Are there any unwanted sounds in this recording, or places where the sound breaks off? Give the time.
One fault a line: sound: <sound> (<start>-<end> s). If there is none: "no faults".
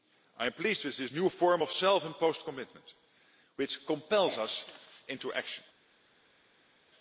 no faults